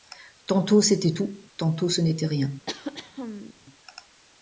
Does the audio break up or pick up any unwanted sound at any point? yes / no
yes